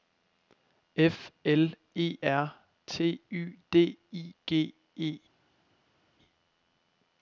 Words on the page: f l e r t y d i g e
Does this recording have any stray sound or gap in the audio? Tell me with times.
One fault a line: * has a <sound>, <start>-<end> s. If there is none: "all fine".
all fine